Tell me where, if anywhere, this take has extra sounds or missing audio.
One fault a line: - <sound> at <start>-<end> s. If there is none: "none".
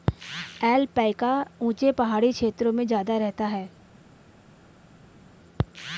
none